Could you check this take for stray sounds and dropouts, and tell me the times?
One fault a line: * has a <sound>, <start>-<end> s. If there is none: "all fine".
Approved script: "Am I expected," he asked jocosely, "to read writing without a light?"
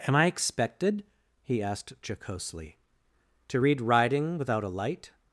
all fine